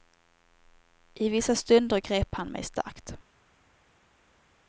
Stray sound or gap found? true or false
false